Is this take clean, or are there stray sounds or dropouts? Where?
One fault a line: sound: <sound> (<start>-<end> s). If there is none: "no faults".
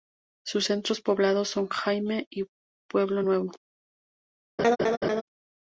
sound: laugh (4.6-5.2 s)